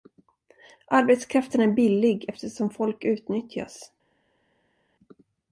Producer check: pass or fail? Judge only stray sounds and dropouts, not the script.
pass